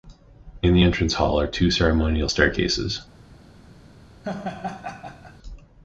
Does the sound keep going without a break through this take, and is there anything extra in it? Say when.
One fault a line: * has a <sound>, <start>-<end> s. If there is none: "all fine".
* has a laugh, 4.2-5.4 s